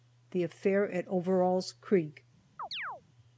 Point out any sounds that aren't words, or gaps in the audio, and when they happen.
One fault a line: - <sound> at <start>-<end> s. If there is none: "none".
- chirp at 2.6-3.0 s